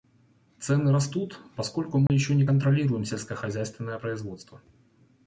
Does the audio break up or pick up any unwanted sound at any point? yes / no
yes